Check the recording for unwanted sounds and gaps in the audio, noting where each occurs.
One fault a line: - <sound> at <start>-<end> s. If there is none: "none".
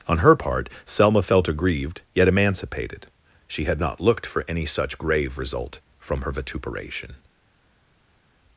none